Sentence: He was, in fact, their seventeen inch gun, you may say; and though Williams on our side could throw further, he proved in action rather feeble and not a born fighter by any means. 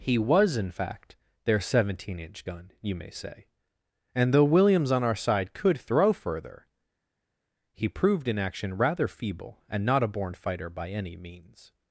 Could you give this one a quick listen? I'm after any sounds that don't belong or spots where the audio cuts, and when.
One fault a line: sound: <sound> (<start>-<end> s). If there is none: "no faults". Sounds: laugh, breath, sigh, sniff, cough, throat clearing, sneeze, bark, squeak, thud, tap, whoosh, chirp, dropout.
no faults